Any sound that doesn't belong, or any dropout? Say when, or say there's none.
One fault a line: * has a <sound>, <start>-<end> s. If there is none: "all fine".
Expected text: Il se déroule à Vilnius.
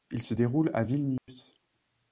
* has a dropout, 1.2-1.3 s